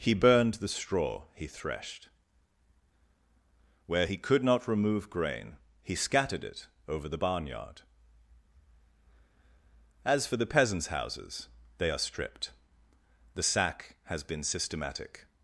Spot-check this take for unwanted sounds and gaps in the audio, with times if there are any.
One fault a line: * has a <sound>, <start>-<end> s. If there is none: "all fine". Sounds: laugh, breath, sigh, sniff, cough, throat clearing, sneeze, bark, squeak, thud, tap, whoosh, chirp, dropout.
all fine